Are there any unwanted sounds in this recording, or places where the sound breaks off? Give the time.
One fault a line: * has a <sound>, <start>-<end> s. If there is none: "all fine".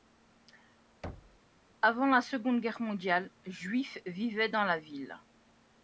* has a thud, 1.0-1.4 s